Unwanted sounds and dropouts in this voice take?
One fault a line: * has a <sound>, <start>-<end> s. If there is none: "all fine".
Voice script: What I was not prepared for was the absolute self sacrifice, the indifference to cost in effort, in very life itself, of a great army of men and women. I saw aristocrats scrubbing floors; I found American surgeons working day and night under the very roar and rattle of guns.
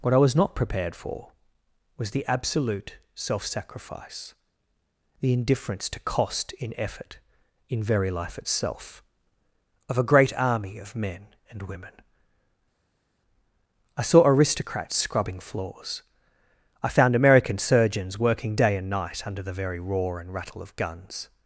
all fine